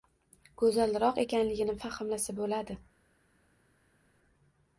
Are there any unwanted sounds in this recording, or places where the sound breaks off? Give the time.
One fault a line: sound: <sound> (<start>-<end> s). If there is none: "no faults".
no faults